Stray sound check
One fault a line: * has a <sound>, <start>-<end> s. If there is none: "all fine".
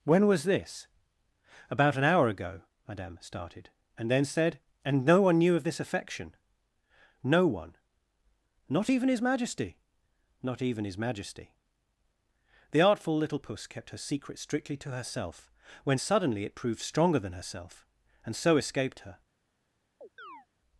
* has a chirp, 20.0-20.5 s